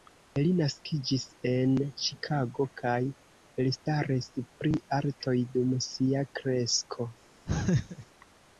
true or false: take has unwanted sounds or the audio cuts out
true